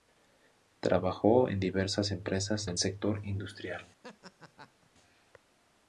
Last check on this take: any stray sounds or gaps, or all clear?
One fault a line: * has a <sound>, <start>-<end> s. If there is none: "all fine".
* has a laugh, 4.0-4.9 s